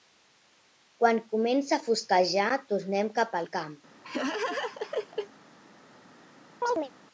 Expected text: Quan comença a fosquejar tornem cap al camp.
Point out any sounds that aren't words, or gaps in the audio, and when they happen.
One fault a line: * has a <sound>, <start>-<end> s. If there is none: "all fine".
* has a laugh, 4.0-5.3 s
* has a chirp, 6.6-6.9 s